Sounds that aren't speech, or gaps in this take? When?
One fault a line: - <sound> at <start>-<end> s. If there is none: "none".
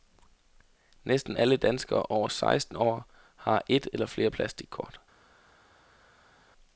none